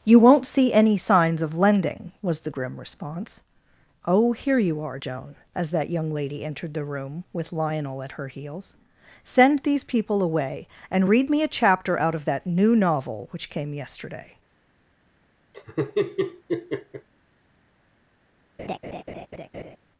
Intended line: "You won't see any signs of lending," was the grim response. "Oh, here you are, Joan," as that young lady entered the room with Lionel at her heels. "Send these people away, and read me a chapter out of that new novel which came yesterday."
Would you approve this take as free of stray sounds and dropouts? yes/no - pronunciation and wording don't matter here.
no